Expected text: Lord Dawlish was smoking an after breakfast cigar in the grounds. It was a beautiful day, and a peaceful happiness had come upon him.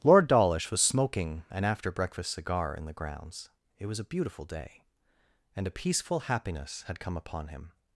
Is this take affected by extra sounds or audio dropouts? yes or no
no